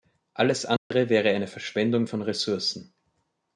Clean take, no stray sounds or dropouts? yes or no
no